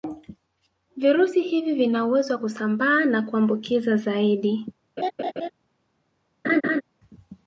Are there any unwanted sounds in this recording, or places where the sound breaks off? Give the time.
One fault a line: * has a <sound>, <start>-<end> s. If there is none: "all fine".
* has a laugh, 5.0-5.5 s
* has a laugh, 6.4-6.8 s